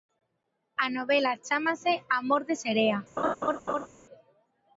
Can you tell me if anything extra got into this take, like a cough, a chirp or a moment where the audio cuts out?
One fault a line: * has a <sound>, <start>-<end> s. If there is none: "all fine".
* has a laugh, 3.2-3.9 s